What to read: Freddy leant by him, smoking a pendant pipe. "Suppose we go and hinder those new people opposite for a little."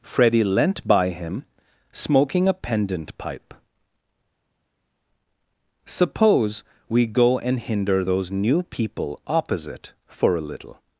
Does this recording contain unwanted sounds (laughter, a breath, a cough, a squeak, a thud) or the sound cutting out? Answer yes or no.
no